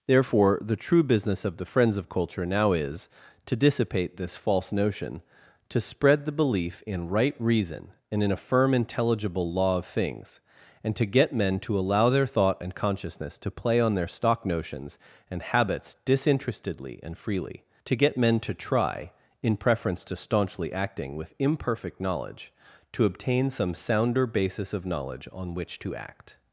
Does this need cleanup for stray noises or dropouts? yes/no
no